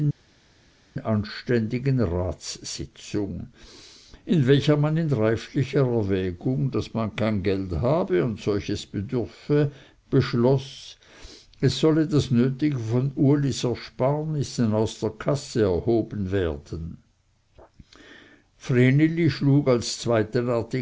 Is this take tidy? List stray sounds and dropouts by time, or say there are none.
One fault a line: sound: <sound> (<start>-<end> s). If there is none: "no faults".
no faults